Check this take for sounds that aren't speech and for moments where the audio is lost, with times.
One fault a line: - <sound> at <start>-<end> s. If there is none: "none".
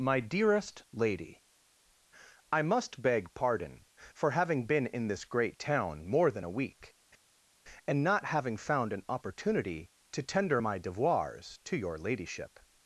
none